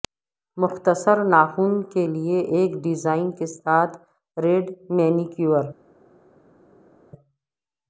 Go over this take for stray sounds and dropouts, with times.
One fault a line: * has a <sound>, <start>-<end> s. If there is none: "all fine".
all fine